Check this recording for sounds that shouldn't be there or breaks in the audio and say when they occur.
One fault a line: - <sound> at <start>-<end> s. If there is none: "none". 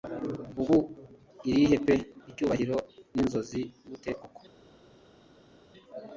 none